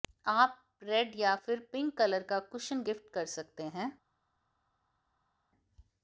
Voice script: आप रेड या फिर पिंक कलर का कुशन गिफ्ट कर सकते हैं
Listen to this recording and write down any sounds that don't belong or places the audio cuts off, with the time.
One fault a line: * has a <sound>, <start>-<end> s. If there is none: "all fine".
all fine